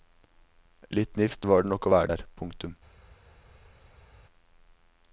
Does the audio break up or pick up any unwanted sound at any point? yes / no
no